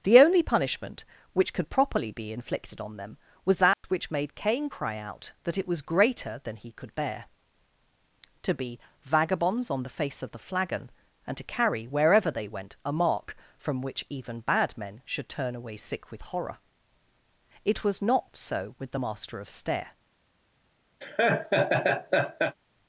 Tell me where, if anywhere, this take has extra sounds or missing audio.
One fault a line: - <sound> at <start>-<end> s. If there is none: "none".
- dropout at 3.7-3.8 s
- laugh at 21.0-22.6 s